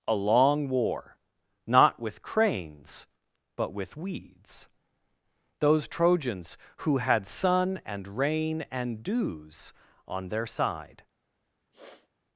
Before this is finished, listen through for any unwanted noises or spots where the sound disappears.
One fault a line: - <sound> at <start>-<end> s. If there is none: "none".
- sniff at 11.7-12.1 s